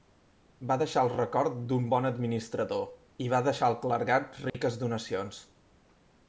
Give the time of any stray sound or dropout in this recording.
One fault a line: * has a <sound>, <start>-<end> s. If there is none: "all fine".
* has a dropout, 4.5-4.5 s